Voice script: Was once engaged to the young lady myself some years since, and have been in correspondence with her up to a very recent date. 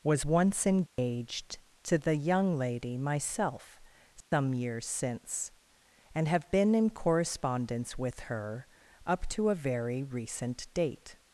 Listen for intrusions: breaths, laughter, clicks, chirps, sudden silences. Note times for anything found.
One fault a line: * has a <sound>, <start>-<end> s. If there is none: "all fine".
* has a dropout, 0.9-1.0 s
* has a dropout, 4.2-4.3 s